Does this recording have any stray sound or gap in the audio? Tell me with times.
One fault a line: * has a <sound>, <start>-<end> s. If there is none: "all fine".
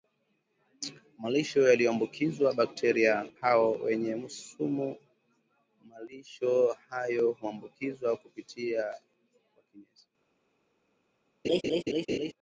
* has a laugh, 11.4-12.3 s